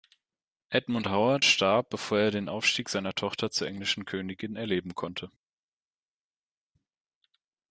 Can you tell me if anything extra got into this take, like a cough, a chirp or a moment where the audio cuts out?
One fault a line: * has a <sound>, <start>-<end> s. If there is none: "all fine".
all fine